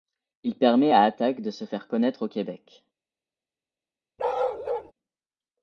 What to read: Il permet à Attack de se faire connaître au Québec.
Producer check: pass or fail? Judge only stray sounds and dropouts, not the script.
fail